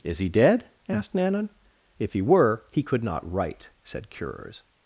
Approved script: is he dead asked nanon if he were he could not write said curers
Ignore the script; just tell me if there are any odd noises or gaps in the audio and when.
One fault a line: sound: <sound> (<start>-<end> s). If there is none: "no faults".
no faults